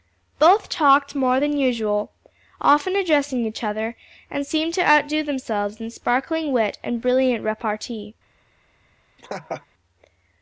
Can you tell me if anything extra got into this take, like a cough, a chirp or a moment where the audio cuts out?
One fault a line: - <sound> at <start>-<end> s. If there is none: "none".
- laugh at 9.2-9.7 s